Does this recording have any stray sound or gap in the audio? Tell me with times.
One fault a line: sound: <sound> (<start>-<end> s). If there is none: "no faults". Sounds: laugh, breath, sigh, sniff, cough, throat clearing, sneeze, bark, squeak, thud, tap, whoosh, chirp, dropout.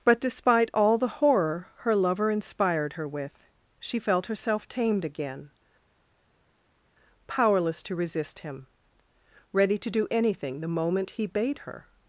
no faults